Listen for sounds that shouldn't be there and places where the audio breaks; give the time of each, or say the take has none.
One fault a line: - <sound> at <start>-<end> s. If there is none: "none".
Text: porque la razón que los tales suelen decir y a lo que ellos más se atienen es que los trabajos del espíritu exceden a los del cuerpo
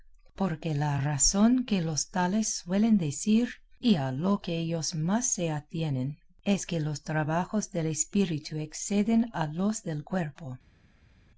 none